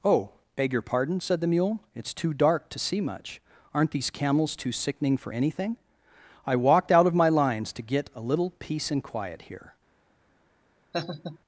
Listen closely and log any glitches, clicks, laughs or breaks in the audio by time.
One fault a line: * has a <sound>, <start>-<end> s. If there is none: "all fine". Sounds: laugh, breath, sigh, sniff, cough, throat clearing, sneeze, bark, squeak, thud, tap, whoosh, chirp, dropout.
* has a laugh, 10.9-11.4 s